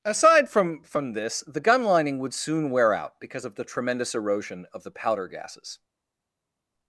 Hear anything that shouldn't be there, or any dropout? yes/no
no